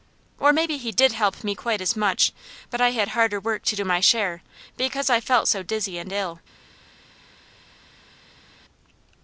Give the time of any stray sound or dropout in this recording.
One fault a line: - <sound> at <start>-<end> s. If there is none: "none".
none